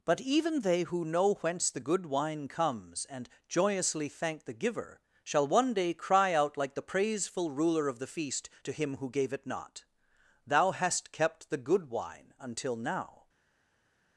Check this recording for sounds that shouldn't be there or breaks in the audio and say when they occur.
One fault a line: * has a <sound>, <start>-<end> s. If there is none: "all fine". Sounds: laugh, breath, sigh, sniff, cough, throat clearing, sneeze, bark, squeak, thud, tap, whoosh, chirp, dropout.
all fine